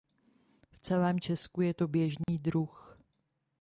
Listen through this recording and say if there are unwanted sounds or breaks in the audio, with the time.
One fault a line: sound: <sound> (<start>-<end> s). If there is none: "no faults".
sound: dropout (2.2-2.3 s)